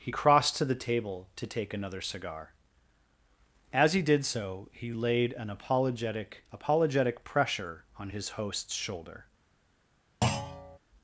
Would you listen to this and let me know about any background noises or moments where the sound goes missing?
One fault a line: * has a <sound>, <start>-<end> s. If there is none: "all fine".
* has a thud, 10.2-10.8 s